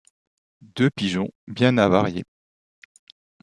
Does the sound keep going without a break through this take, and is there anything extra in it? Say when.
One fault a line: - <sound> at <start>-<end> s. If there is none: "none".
none